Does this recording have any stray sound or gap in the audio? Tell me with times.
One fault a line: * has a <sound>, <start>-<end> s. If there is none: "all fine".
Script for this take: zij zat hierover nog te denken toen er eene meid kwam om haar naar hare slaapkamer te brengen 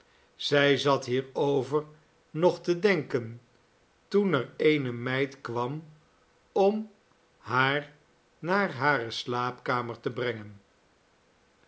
all fine